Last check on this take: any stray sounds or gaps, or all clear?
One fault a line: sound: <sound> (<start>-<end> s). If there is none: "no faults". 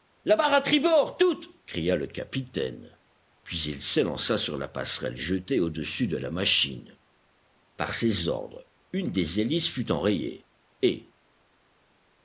no faults